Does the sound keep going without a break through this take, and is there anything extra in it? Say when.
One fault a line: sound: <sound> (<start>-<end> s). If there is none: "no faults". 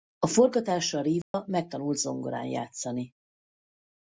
sound: dropout (1.2-1.3 s)